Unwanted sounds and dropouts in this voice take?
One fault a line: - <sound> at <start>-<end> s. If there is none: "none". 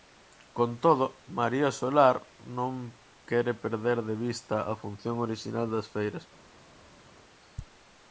none